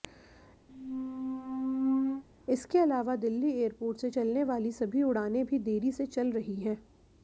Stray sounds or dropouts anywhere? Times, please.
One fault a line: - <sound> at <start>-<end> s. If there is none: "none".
- squeak at 0.7-2.2 s